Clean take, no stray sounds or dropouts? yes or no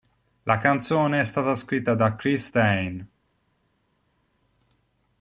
yes